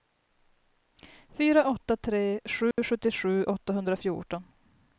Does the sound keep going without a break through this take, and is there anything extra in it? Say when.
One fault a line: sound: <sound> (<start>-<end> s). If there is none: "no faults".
sound: dropout (2.7-2.8 s)